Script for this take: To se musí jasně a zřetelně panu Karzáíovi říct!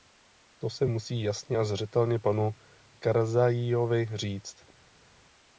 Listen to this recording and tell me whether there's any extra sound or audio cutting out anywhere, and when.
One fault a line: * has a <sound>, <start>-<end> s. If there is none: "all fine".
all fine